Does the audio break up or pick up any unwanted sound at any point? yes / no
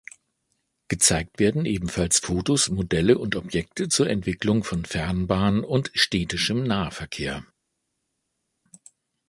no